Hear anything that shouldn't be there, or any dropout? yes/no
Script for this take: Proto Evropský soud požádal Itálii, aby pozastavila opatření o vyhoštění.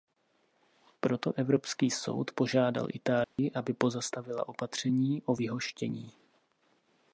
yes